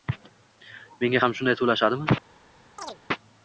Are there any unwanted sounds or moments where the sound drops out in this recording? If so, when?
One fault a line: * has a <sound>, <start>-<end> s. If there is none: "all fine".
* has a chirp, 2.8-3.0 s